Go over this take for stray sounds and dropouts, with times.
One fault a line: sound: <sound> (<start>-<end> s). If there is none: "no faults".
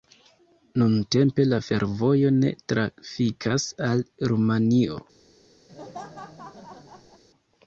sound: laugh (5.7-7.2 s)